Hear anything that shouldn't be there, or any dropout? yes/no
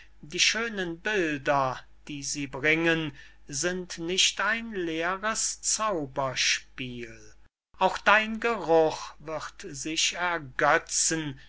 no